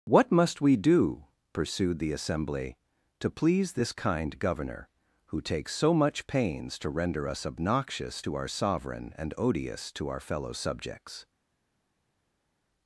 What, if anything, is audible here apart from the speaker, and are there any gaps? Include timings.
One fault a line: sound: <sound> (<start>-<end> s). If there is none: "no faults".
no faults